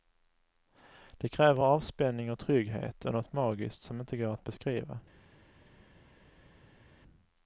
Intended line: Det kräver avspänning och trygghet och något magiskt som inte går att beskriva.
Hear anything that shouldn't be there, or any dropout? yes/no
no